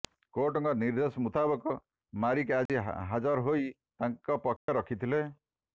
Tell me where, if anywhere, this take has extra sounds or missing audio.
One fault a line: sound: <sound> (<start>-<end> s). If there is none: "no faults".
sound: dropout (2.7-2.7 s)
sound: dropout (4.6-4.7 s)